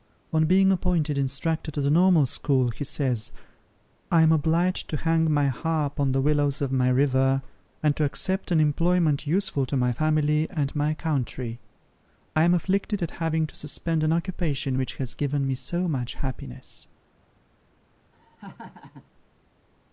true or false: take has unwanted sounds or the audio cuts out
true